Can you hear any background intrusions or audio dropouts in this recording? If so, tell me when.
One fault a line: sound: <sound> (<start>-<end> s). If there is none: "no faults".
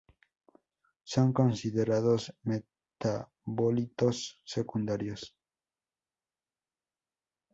no faults